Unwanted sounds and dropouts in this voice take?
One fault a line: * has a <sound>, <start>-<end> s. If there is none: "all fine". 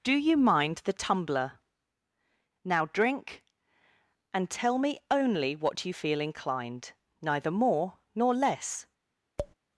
* has a tap, 9.4-9.5 s